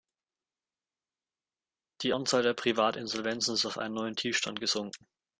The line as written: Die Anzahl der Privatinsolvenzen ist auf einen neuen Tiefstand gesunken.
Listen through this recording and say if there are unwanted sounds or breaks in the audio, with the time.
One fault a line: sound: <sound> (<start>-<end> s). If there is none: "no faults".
no faults